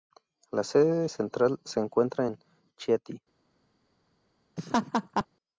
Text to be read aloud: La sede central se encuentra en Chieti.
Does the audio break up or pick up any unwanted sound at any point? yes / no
yes